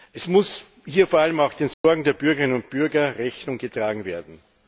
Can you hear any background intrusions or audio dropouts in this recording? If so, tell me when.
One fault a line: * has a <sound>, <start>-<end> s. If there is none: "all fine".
* has a dropout, 1.7-1.8 s